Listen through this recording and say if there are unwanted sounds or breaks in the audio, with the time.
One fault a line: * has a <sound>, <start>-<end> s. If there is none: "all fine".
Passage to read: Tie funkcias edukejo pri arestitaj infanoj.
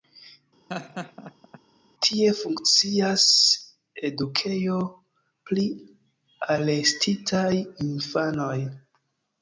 * has a laugh, 0.7-1.6 s